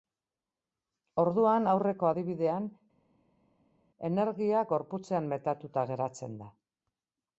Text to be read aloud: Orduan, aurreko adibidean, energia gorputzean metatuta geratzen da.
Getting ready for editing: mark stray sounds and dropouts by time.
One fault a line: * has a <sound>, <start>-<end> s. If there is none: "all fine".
all fine